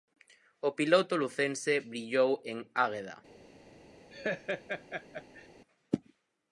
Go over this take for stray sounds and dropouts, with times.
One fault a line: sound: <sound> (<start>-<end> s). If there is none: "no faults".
sound: laugh (4.1-5.5 s)